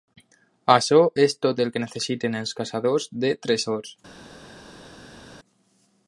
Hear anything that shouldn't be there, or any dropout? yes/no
no